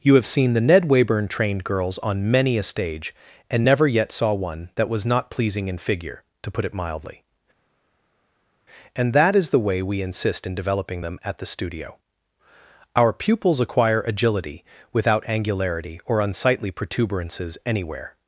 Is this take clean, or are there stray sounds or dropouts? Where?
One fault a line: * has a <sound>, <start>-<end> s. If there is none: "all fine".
all fine